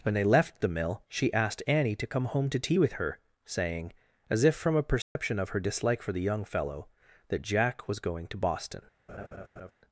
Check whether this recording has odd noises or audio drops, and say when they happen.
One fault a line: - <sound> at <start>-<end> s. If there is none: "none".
- dropout at 5.0-5.2 s
- laugh at 9.1-9.7 s